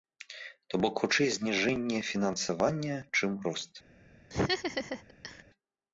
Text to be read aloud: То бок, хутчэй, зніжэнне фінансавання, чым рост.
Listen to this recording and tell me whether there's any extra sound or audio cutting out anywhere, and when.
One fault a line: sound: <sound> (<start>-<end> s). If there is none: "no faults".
sound: laugh (4.3-5.4 s)